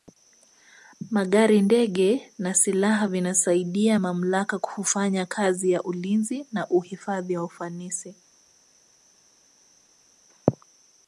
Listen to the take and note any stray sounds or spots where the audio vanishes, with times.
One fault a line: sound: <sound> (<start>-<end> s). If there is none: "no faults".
no faults